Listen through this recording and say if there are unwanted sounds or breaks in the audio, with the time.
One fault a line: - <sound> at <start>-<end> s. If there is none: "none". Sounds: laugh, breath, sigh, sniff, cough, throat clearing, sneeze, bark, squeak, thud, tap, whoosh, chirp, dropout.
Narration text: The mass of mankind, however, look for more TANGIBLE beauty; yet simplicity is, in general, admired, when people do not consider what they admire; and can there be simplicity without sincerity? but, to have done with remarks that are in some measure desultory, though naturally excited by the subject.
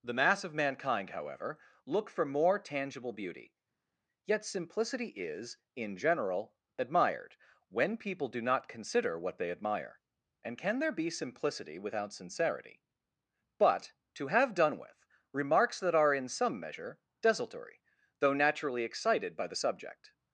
none